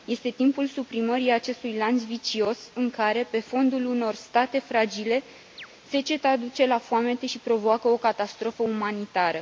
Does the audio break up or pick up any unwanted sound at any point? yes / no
yes